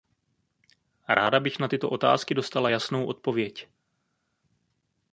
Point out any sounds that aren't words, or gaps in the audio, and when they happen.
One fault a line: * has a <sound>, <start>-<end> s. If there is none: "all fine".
all fine